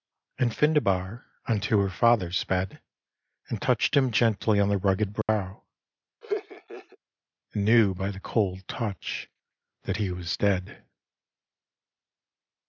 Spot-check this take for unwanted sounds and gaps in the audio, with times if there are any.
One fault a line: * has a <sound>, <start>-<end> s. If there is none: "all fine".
* has a dropout, 5.2-5.3 s
* has a laugh, 6.2-7.0 s